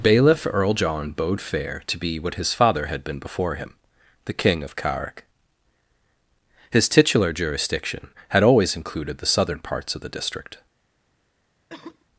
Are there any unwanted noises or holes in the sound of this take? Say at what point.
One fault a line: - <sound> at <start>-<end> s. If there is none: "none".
- cough at 11.7-12.0 s